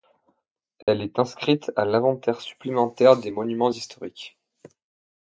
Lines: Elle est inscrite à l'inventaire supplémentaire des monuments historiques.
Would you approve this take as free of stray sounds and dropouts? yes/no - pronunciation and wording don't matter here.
no